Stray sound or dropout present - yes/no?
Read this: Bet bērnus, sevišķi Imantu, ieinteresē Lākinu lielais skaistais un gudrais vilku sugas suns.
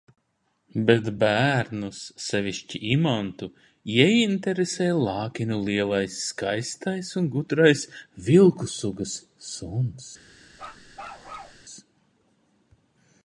yes